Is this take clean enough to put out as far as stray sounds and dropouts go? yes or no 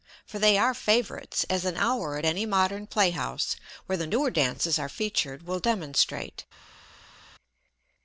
yes